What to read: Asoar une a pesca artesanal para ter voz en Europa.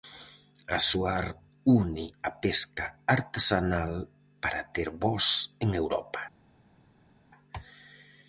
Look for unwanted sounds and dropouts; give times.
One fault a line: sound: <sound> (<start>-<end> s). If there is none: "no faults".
no faults